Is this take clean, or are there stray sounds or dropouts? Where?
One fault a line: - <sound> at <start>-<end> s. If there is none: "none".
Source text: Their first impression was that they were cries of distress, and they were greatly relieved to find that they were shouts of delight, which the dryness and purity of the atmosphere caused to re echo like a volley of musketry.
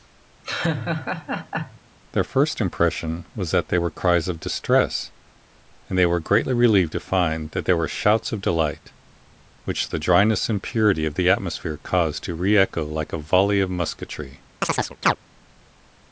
- laugh at 0.4-1.8 s
- chirp at 14.6-15.2 s